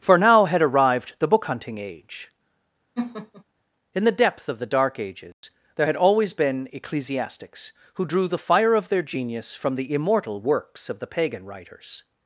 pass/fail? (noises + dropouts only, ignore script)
fail